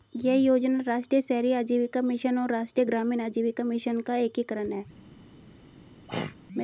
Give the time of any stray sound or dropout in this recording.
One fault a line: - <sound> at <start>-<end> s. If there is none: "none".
- throat clearing at 6.1-6.4 s